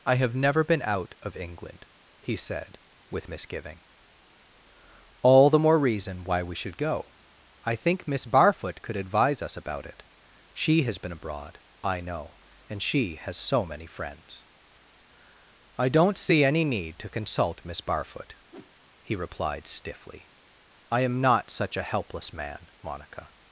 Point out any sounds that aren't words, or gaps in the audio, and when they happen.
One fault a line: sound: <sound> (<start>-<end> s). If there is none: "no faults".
sound: whoosh (18.5-18.7 s)